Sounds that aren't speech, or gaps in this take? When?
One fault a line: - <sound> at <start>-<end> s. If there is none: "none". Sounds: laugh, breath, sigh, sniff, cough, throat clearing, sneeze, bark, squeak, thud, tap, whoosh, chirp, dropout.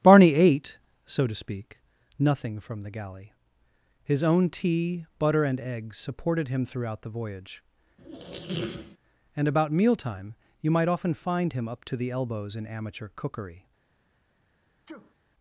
- squeak at 8.0-9.0 s
- sneeze at 14.9-15.2 s